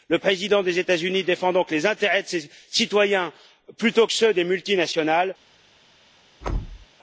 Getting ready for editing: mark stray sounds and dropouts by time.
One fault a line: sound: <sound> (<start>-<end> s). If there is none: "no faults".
sound: thud (6.4-6.9 s)